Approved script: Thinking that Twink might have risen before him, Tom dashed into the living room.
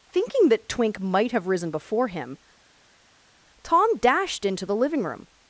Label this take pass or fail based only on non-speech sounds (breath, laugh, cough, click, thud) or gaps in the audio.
pass